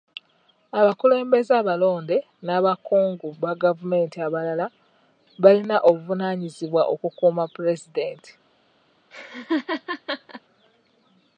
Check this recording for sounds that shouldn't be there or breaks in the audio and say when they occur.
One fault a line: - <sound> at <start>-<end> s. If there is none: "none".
- laugh at 9.1-10.4 s